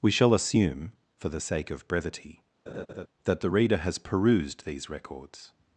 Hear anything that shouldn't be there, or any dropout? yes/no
yes